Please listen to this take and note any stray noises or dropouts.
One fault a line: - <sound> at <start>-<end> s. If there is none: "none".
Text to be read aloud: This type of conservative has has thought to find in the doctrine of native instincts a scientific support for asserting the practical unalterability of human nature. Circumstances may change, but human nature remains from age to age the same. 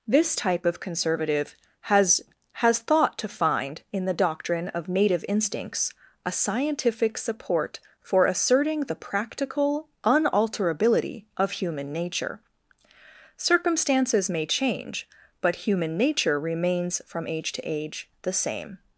none